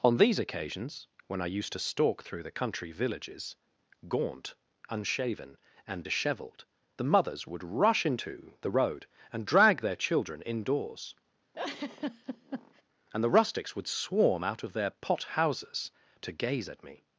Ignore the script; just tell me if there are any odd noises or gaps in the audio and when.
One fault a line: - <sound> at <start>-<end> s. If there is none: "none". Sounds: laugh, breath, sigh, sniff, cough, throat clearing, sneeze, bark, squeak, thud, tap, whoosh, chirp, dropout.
- laugh at 11.5-12.8 s